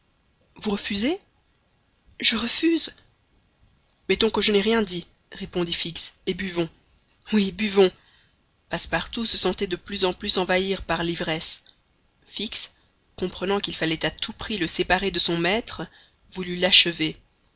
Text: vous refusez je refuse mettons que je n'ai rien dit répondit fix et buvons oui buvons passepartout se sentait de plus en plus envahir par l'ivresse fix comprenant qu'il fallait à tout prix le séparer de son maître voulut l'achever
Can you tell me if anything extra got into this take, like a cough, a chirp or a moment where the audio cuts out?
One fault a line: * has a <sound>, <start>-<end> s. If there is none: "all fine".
all fine